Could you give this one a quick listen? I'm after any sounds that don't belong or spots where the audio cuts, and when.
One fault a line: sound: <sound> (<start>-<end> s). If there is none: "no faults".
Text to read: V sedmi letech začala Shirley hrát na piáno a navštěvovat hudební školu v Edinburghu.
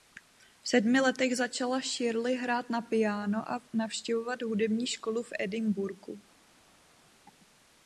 no faults